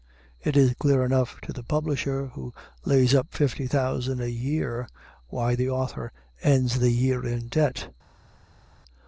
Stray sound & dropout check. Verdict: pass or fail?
pass